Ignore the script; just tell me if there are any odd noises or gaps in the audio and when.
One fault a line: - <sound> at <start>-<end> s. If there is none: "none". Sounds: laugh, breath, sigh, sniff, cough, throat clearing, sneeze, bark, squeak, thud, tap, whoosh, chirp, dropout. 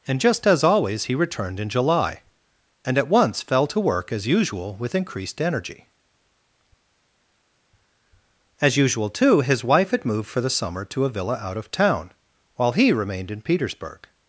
none